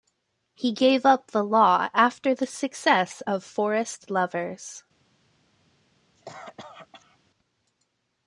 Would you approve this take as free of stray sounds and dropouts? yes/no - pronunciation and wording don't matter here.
no